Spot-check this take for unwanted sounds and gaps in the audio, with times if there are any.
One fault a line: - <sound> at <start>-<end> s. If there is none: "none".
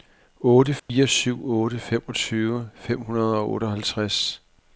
- dropout at 0.8-0.9 s